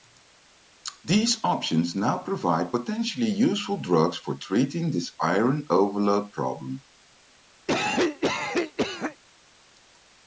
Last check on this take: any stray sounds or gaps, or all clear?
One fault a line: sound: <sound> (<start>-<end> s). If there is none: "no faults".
sound: cough (7.7-9.2 s)